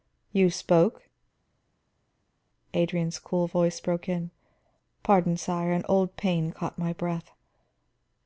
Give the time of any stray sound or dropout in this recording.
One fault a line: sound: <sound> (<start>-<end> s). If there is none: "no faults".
no faults